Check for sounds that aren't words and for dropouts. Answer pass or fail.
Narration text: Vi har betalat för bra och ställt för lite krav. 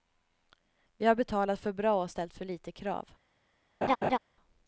fail